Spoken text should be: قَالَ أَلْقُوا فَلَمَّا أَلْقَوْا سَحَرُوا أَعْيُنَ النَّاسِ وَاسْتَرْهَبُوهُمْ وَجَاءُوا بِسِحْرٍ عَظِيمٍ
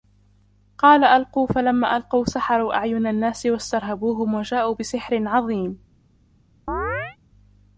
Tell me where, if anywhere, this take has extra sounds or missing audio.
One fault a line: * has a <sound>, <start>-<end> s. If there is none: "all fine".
* has a chirp, 6.7-7.2 s